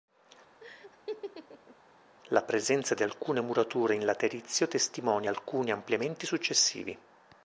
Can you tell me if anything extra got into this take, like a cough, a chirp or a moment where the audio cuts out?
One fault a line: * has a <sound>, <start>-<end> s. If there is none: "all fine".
* has a laugh, 0.6-1.8 s